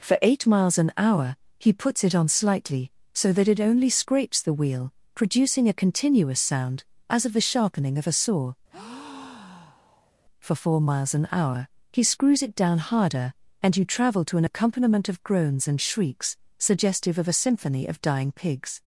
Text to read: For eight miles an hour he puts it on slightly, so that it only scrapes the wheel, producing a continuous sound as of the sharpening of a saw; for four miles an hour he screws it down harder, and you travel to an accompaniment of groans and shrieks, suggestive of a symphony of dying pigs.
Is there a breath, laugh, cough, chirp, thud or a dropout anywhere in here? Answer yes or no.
yes